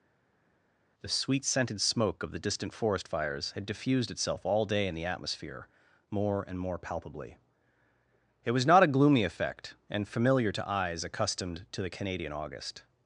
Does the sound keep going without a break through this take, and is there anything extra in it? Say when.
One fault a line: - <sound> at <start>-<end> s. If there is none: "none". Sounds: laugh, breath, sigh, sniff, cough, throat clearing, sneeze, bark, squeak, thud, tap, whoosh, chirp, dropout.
none